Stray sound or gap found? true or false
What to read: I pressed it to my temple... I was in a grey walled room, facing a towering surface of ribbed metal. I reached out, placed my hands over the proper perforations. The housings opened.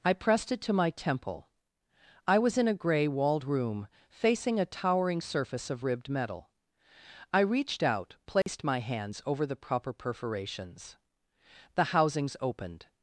true